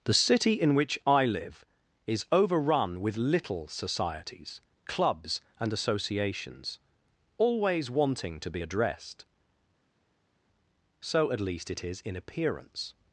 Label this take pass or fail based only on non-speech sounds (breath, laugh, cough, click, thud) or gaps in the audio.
pass